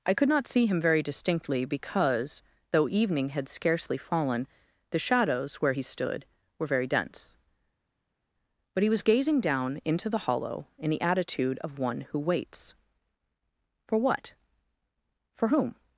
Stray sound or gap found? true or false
false